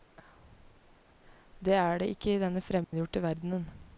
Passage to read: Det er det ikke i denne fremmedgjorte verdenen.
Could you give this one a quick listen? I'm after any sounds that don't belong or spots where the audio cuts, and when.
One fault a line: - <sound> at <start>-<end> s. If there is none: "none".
- dropout at 2.8-2.9 s